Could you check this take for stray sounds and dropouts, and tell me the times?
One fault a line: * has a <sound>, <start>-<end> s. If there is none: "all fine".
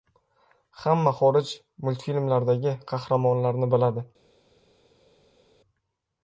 all fine